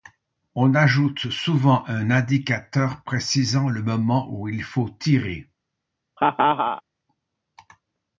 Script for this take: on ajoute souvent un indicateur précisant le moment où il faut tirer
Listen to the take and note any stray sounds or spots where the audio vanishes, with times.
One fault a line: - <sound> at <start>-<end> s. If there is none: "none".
- laugh at 6.2-6.8 s